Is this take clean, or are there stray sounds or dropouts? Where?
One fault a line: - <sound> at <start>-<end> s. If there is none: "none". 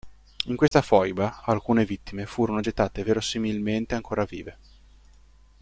- dropout at 0.7-0.7 s